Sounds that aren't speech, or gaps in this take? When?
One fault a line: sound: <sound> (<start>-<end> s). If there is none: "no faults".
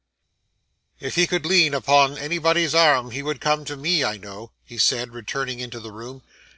no faults